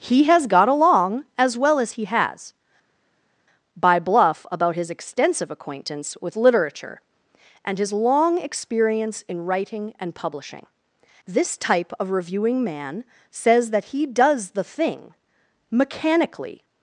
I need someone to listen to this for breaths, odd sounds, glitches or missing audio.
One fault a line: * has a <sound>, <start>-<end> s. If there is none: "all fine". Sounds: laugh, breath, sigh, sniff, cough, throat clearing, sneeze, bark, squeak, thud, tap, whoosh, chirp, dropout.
all fine